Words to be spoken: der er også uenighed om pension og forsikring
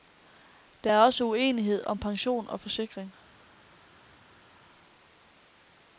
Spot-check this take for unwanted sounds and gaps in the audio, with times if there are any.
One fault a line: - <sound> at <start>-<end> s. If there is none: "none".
none